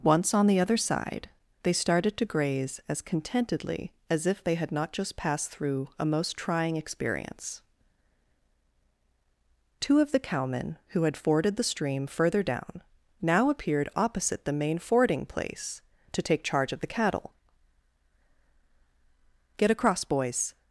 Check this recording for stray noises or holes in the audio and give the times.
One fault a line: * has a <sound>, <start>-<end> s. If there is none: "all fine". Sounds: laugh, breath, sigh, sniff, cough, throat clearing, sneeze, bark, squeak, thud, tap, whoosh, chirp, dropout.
all fine